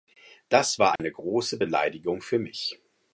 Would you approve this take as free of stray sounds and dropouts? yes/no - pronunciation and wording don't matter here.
no